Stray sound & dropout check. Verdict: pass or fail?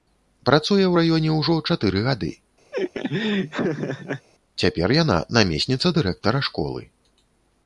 fail